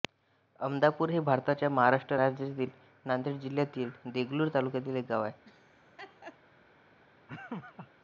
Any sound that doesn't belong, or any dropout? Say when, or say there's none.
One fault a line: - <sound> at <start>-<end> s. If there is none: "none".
- laugh at 5.4-6.4 s
- laugh at 7.3-7.9 s